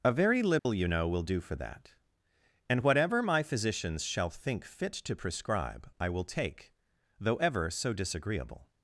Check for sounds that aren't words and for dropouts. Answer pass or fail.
fail